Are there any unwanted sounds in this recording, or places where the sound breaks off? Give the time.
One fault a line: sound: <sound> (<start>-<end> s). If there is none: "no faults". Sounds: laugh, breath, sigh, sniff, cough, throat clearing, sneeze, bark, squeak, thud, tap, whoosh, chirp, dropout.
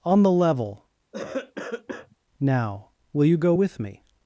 sound: cough (1.1-2.2 s)